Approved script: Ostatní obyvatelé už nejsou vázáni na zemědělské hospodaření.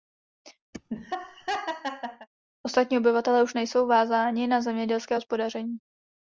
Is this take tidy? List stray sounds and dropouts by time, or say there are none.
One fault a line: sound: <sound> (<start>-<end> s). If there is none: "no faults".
sound: laugh (0.7-2.3 s)